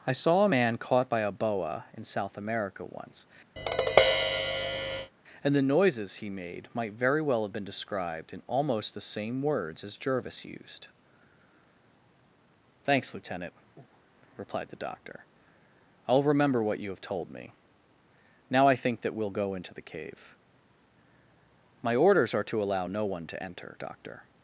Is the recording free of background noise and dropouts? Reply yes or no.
no